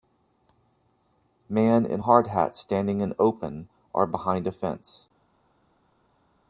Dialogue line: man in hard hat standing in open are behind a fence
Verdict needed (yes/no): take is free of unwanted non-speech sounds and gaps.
yes